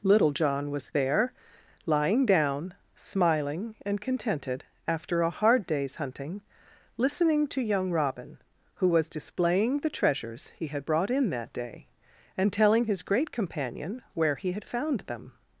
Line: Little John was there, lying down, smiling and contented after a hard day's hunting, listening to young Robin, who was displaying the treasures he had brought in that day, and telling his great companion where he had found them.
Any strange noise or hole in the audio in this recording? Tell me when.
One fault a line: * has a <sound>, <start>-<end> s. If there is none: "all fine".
all fine